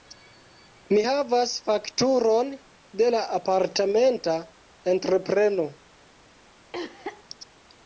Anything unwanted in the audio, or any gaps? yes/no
yes